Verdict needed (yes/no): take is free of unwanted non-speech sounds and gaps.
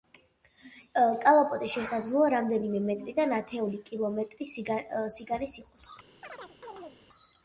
no